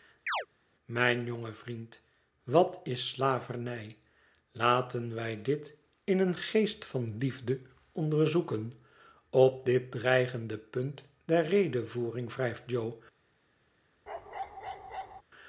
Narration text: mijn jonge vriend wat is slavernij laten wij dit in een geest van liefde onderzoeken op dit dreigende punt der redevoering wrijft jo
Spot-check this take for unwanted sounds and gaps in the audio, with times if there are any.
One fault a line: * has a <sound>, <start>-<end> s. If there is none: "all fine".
* has a chirp, 0.3-0.5 s
* has a bark, 14.1-15.2 s